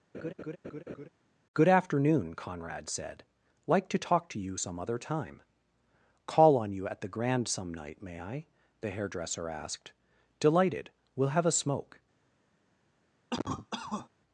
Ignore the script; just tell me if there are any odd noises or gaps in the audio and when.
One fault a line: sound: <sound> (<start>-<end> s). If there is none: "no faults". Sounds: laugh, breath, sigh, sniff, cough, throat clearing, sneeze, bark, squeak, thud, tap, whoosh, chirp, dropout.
sound: laugh (0.1-1.1 s)
sound: cough (13.3-14.1 s)